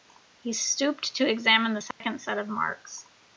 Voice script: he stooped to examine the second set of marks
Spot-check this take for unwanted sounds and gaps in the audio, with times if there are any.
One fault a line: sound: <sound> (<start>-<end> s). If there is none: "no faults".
sound: dropout (1.9-2.0 s)